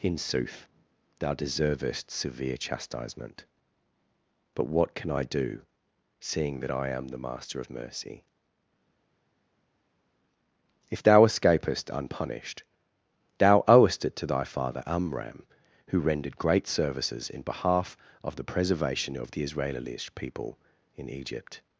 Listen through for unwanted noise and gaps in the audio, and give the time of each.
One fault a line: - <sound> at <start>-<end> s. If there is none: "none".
none